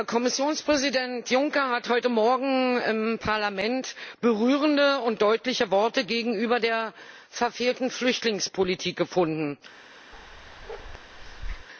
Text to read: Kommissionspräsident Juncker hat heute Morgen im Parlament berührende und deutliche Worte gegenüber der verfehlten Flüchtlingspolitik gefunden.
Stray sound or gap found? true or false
true